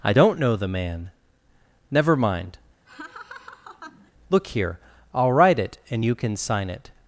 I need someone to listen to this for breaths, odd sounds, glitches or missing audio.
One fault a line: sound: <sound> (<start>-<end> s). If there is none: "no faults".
sound: laugh (2.9-4.1 s)